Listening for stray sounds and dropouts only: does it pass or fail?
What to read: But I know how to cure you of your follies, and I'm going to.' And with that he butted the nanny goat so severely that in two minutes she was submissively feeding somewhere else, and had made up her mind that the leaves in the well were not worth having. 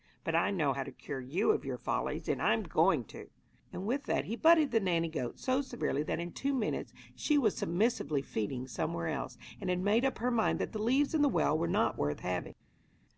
pass